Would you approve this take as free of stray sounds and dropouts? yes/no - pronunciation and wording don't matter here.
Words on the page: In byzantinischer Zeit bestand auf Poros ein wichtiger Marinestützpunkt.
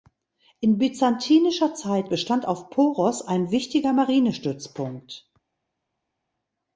yes